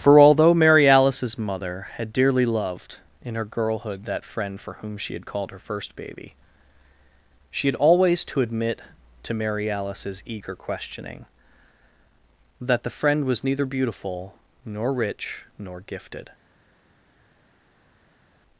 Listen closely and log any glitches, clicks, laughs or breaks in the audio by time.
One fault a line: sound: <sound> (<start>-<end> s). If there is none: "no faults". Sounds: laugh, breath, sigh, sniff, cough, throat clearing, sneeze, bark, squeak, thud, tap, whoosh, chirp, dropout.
no faults